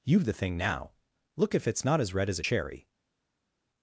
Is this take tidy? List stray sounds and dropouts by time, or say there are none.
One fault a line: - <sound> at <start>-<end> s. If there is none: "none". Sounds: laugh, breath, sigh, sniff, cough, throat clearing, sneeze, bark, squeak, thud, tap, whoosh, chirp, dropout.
none